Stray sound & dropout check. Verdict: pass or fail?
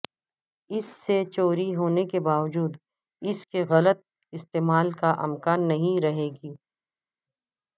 pass